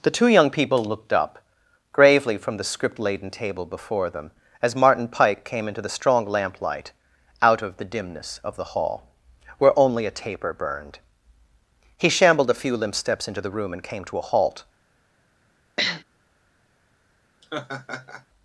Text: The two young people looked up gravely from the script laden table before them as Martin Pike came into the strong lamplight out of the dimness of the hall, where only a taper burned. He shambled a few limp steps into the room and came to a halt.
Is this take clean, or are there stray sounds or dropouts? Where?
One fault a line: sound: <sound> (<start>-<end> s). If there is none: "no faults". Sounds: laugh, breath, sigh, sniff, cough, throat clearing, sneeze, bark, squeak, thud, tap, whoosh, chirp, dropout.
sound: sniff (15.8-16.0 s)
sound: laugh (17.4-18.3 s)